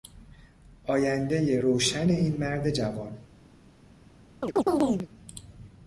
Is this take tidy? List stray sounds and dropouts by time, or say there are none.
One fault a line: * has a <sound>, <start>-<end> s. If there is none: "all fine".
* has a chirp, 4.4-5.1 s